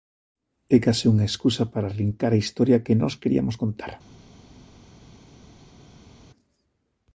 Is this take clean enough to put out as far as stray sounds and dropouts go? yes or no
yes